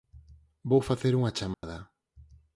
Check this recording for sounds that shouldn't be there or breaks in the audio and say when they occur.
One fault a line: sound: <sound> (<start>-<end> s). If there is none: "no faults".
sound: dropout (1.5-1.6 s)